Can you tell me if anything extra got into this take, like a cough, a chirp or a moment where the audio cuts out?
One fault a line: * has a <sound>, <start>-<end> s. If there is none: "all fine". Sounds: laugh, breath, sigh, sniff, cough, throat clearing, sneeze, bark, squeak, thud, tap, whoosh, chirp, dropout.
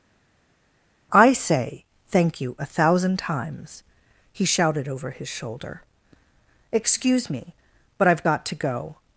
all fine